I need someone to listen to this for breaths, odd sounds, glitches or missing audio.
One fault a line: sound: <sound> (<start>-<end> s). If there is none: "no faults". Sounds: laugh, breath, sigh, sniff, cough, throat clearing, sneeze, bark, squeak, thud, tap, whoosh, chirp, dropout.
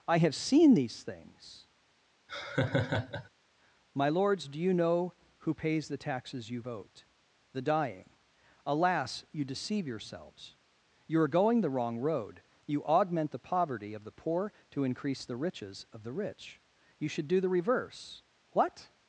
sound: laugh (2.3-3.3 s)